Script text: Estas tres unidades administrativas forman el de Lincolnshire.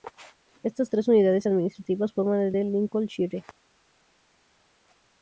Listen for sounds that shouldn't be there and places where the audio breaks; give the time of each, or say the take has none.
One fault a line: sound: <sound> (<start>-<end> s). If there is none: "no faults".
no faults